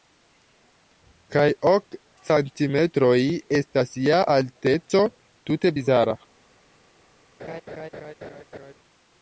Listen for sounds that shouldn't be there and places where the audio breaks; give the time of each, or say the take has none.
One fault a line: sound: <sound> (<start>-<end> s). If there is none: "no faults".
sound: laugh (7.4-8.7 s)